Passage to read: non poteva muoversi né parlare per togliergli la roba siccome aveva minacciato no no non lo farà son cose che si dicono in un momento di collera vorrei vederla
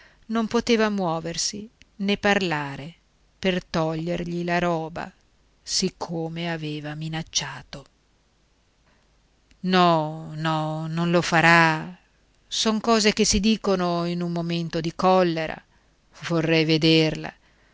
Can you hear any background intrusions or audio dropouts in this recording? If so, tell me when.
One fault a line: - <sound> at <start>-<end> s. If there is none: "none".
none